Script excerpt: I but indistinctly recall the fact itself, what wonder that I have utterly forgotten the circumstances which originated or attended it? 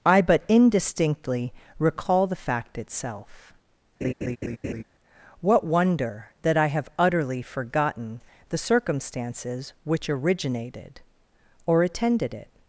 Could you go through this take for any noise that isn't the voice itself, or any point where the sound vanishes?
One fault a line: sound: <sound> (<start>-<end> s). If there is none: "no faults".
sound: laugh (4.0-4.8 s)